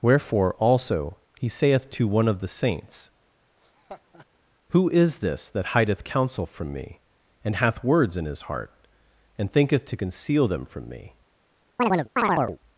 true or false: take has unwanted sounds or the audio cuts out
true